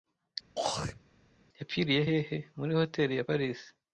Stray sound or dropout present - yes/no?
yes